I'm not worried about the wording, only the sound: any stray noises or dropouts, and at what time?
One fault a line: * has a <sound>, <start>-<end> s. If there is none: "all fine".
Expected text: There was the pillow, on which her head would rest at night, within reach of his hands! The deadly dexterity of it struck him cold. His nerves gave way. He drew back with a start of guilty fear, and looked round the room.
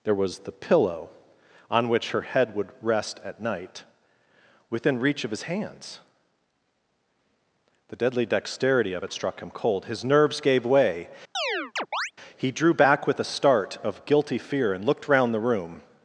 * has a chirp, 11.3-12.1 s